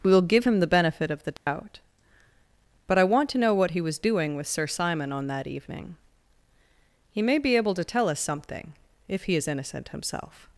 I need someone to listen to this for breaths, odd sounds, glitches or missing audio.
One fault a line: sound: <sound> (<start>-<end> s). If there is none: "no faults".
sound: dropout (1.4-1.5 s)